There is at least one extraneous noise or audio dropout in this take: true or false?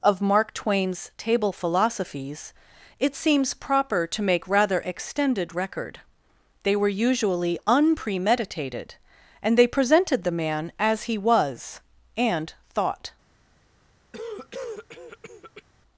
true